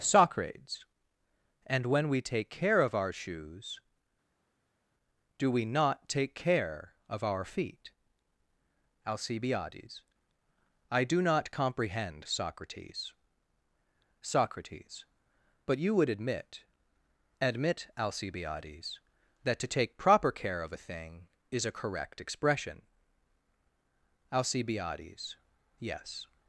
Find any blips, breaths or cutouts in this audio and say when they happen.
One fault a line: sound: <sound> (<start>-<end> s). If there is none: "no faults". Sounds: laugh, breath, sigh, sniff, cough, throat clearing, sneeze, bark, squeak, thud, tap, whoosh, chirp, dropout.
no faults